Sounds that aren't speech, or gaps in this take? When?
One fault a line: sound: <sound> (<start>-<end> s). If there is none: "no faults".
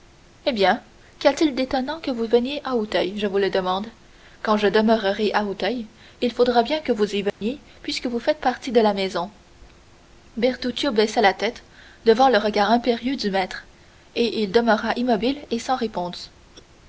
sound: dropout (7.3-7.4 s)